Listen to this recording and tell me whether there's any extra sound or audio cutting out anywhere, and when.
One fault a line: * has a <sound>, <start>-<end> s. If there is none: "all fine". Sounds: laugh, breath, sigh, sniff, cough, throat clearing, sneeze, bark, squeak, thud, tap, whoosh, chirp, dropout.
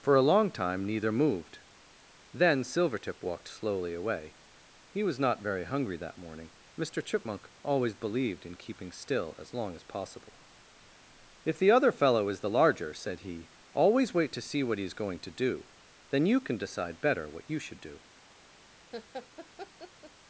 * has a laugh, 18.9-20.1 s